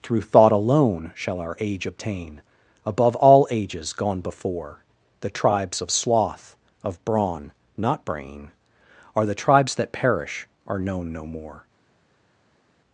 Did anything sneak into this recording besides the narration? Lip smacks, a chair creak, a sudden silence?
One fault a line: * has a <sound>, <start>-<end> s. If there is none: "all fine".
all fine